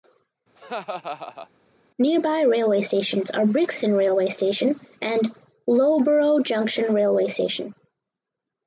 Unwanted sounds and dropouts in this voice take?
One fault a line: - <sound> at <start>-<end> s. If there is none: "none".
- laugh at 0.6-1.5 s